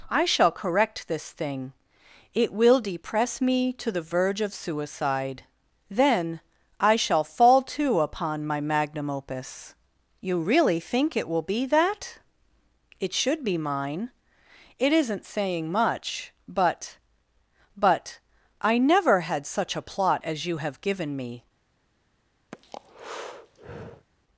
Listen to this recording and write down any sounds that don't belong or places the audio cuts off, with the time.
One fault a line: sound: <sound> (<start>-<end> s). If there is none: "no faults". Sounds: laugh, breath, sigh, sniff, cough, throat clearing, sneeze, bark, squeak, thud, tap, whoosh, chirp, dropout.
sound: breath (22.5-24.1 s)